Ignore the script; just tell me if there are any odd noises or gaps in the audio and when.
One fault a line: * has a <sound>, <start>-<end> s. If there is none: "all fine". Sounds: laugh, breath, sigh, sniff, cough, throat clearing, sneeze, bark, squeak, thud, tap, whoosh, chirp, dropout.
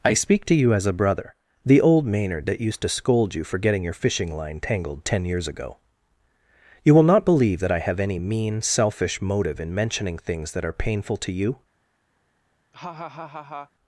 * has a laugh, 12.7-13.7 s